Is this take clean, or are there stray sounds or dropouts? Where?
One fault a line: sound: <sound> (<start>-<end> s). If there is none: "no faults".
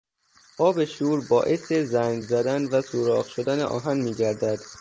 no faults